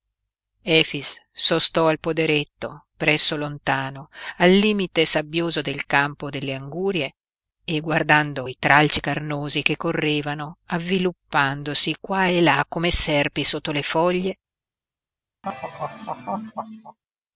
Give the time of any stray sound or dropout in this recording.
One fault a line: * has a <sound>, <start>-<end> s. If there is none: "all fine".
* has a laugh, 15.4-17.0 s